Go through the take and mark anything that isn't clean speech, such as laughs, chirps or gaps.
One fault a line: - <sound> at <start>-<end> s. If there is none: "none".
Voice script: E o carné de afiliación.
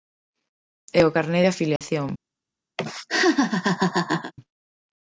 - dropout at 1.8-1.8 s
- laugh at 2.8-4.3 s